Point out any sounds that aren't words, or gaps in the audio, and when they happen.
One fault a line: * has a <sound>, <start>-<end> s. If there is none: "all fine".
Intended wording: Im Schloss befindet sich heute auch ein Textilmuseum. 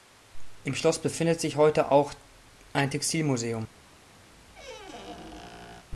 * has a squeak, 4.3-5.9 s